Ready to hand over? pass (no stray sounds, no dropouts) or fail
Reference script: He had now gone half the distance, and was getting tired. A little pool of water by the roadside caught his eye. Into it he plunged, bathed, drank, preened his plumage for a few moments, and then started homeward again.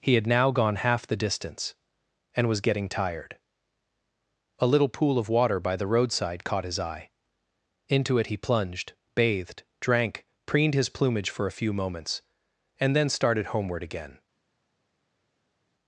pass